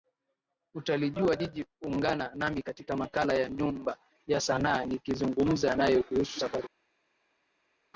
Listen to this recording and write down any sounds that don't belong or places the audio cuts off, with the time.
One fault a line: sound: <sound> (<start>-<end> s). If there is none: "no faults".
no faults